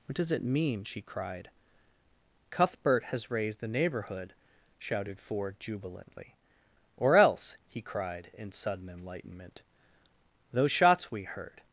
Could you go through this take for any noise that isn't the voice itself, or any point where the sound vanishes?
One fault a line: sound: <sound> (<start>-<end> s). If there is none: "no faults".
no faults